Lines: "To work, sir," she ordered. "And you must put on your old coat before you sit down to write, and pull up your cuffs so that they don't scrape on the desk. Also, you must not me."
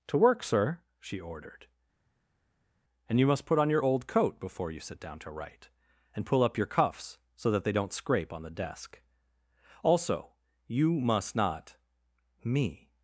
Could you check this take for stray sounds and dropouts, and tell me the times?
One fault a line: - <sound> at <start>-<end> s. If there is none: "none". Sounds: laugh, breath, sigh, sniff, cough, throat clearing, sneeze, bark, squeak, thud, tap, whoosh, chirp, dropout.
none